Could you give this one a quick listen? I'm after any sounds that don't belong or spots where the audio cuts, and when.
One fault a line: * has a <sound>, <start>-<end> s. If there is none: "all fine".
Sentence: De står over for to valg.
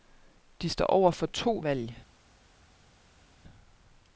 all fine